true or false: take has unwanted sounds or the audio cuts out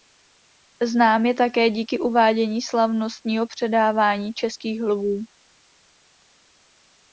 false